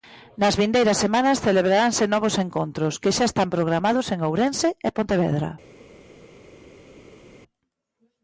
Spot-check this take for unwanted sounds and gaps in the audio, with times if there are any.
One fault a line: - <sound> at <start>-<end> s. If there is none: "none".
none